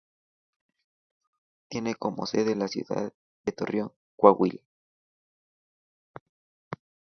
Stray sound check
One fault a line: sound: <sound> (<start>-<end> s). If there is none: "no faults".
no faults